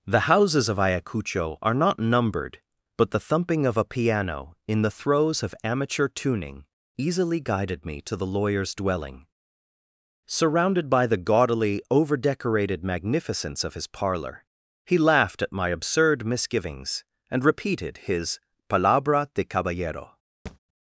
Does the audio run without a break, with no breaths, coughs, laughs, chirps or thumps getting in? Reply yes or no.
no